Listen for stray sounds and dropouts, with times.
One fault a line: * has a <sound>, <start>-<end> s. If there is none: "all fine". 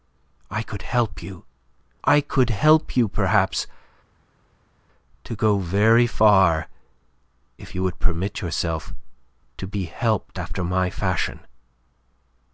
all fine